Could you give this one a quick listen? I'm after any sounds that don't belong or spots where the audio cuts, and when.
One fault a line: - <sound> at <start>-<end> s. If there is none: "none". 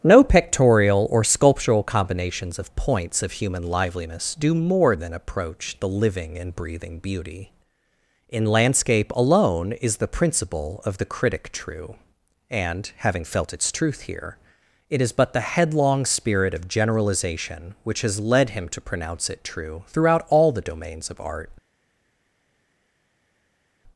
none